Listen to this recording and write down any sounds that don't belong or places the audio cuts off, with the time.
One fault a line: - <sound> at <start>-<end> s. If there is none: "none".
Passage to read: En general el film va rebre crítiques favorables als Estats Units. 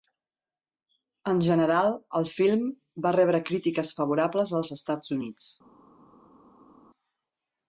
none